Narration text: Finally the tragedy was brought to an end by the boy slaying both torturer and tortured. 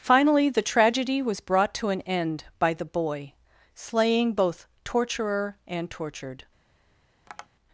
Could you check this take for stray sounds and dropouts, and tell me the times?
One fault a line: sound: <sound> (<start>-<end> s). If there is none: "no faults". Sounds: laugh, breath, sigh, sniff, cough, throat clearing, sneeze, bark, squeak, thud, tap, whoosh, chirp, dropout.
sound: tap (7.3-7.5 s)